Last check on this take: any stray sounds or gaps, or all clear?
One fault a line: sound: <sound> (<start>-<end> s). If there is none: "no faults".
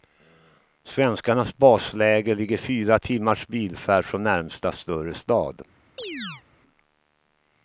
sound: chirp (6.0-6.4 s)